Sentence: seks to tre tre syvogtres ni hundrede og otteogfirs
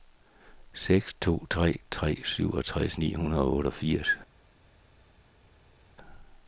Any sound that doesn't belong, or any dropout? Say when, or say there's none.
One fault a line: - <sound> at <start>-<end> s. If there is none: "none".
none